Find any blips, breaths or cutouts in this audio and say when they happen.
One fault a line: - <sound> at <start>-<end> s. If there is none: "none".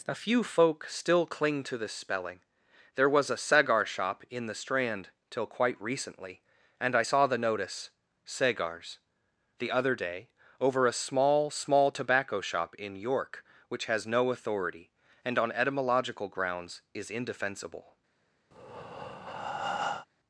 - breath at 18.5-20.1 s